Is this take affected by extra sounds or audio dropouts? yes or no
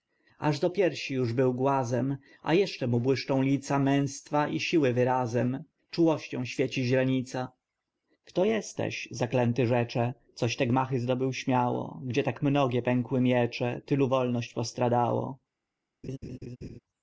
yes